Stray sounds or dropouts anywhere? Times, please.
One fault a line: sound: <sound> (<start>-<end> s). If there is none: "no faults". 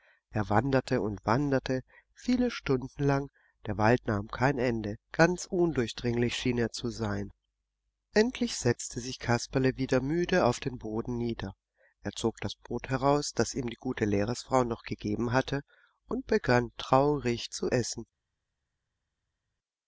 no faults